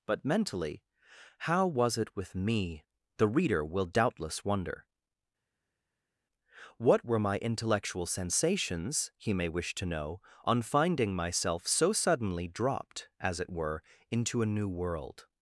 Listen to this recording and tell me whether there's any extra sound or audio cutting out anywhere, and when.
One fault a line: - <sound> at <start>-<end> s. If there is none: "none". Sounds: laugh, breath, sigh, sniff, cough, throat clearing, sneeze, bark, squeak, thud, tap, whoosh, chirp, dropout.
none